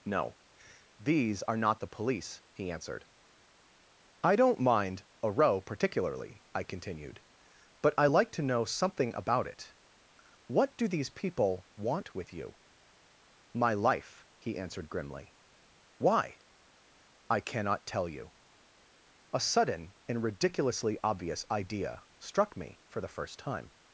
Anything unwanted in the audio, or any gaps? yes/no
no